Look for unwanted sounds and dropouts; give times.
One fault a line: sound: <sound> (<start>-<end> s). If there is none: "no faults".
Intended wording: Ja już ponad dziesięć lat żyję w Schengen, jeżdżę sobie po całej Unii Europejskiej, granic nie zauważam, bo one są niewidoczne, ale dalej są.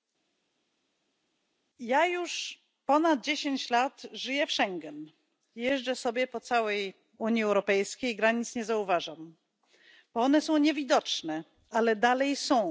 no faults